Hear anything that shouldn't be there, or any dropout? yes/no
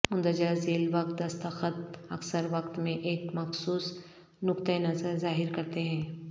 no